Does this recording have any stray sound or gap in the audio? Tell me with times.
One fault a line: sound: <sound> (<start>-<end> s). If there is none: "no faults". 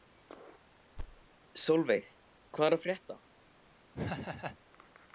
sound: thud (1.0-1.3 s)
sound: laugh (3.9-4.6 s)